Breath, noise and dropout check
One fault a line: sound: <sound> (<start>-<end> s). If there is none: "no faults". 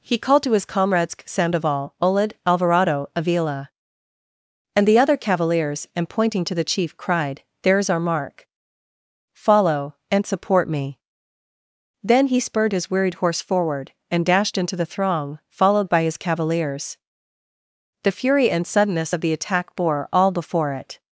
no faults